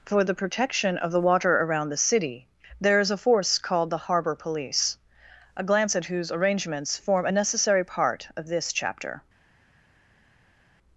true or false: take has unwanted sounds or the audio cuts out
false